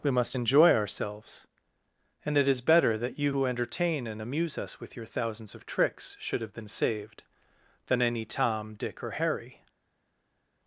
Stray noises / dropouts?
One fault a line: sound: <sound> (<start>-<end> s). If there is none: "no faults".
no faults